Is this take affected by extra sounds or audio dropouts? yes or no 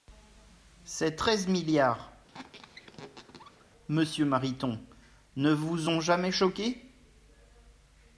yes